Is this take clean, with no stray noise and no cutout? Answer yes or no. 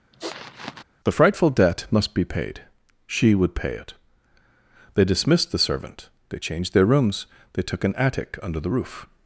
no